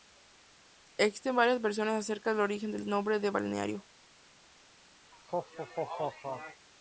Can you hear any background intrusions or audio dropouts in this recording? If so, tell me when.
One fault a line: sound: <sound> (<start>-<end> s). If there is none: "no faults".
sound: laugh (5.1-6.7 s)